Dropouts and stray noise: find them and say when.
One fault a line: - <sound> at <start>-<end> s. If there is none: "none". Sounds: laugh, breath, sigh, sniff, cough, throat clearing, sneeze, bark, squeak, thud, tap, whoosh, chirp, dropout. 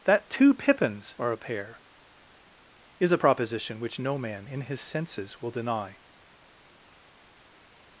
none